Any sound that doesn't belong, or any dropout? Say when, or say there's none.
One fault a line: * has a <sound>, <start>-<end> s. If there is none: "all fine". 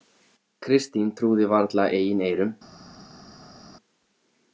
all fine